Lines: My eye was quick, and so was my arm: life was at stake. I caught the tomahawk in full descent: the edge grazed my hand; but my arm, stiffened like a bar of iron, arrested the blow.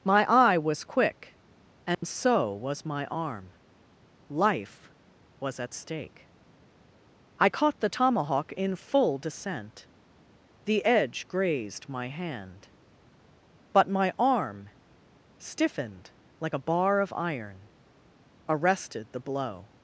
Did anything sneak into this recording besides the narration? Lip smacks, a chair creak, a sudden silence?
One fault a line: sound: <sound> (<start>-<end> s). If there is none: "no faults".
sound: dropout (1.9-2.0 s)